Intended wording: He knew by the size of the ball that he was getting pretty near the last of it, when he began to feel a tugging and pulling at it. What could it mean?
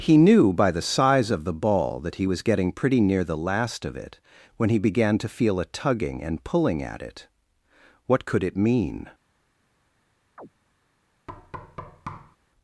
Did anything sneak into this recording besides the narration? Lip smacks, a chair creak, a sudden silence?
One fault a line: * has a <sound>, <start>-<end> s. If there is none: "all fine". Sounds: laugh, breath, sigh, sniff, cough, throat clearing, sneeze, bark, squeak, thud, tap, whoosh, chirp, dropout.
* has a chirp, 10.4-10.5 s
* has a thud, 11.3-12.4 s